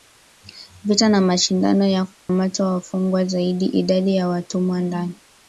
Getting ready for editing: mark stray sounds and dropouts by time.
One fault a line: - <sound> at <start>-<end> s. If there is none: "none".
- dropout at 2.1-2.3 s